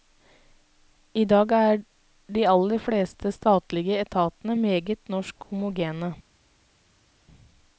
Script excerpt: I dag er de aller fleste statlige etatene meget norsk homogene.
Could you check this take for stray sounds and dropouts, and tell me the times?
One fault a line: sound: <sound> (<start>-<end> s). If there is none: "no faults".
no faults